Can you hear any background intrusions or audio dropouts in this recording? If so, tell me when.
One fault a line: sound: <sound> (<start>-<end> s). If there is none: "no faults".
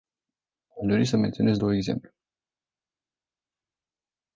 no faults